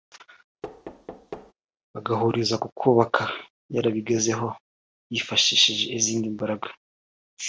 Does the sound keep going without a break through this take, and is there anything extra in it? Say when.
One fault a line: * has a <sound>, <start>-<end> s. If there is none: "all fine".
* has a thud, 0.6-1.5 s